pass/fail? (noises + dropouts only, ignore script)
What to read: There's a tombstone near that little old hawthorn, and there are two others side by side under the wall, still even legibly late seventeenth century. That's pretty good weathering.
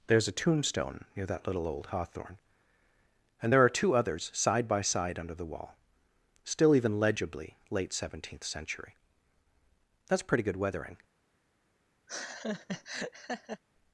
fail